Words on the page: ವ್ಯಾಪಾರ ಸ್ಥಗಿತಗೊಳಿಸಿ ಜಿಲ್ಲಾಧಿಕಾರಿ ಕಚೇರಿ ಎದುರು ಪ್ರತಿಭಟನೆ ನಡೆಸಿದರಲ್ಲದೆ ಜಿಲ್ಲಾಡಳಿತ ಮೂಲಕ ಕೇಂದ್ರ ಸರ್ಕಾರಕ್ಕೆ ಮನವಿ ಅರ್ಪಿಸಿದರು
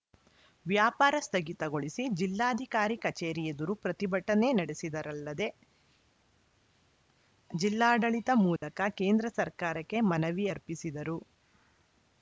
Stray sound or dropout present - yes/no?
yes